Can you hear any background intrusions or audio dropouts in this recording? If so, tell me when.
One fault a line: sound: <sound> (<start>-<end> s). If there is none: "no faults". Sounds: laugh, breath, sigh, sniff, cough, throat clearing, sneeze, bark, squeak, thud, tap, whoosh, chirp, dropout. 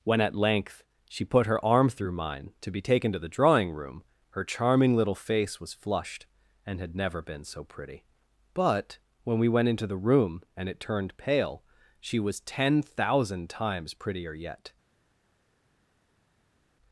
no faults